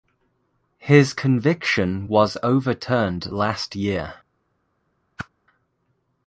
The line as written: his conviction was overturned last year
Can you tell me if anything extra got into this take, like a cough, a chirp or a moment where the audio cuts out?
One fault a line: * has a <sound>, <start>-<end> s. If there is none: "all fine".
* has a whoosh, 5.2-5.3 s